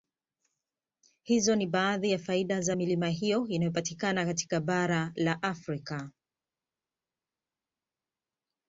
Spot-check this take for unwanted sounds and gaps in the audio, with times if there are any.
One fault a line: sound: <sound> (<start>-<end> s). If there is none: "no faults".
no faults